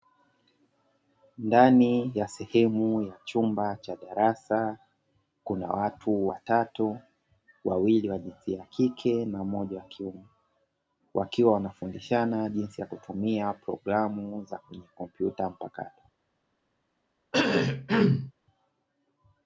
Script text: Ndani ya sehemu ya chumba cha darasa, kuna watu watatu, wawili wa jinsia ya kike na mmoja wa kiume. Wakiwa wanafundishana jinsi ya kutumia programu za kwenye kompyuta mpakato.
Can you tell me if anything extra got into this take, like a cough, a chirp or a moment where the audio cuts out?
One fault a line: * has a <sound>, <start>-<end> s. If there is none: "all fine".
* has a cough, 17.3-18.3 s